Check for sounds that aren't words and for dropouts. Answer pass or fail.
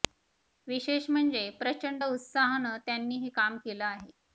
pass